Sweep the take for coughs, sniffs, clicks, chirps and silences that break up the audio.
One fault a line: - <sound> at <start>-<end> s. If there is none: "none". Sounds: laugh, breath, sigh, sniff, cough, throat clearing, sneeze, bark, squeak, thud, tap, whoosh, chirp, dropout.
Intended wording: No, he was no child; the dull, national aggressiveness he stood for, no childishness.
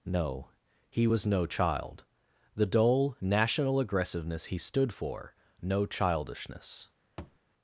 - thud at 7.2-7.4 s